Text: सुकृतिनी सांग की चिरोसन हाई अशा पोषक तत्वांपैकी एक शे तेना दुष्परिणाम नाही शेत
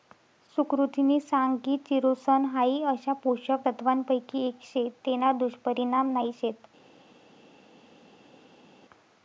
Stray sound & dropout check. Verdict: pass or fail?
pass